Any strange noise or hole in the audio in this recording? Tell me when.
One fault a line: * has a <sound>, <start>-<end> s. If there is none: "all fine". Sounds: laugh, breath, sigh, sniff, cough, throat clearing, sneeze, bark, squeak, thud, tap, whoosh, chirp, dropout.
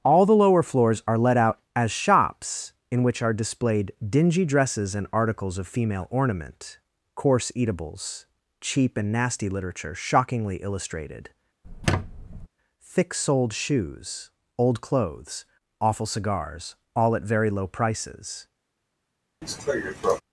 * has a squeak, 11.6-12.5 s
* has a cough, 19.4-20.2 s